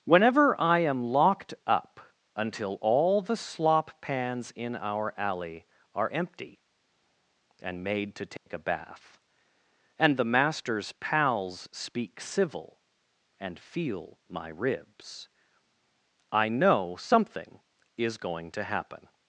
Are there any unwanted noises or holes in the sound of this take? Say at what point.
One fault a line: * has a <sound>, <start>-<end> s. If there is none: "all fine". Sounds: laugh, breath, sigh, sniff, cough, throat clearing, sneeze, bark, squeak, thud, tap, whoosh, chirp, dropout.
* has a dropout, 8.4-8.5 s